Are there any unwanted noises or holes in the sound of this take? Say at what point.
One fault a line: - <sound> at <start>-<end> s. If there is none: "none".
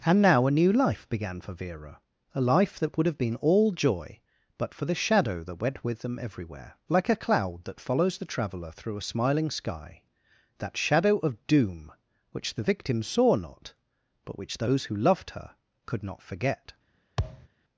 - thud at 17.2-17.5 s